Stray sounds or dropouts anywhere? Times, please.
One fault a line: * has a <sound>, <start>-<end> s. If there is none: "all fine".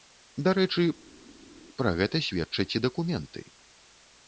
all fine